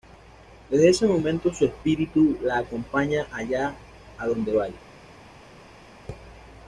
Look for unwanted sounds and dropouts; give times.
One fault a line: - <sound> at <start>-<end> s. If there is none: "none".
none